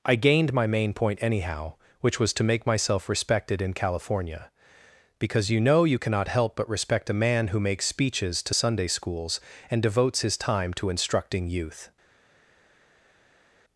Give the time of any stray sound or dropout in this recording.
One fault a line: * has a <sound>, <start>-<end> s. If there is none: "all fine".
all fine